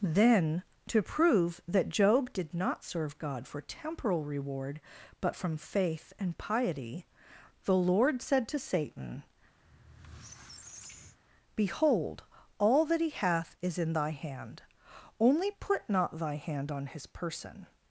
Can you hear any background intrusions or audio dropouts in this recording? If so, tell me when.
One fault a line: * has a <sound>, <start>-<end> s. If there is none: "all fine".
* has a squeak, 9.6-11.2 s